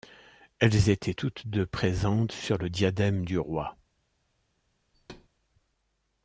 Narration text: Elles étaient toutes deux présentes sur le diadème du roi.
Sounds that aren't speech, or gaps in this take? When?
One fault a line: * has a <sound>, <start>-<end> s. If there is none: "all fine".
* has a thud, 4.9-5.3 s